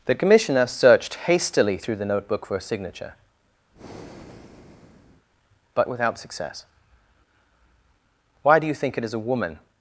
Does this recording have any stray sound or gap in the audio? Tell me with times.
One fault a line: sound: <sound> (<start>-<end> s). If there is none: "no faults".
sound: breath (3.7-5.3 s)